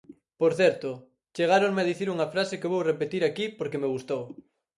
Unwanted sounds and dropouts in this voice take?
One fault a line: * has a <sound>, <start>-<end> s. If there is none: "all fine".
all fine